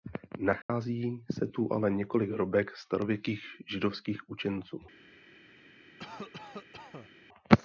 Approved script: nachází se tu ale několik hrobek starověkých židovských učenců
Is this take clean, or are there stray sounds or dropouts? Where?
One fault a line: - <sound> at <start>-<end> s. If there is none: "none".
- dropout at 0.6-0.7 s
- cough at 6.0-7.1 s